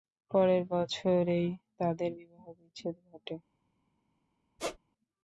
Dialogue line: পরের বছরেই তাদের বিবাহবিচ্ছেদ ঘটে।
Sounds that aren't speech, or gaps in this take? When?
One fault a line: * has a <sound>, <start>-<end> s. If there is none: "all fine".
* has a squeak, 4.6-4.8 s